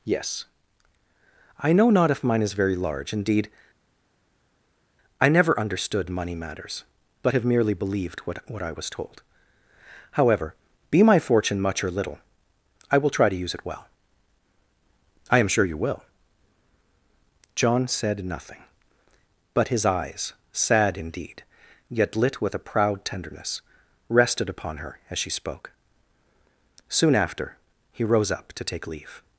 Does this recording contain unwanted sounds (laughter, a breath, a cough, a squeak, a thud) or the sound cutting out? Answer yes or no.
no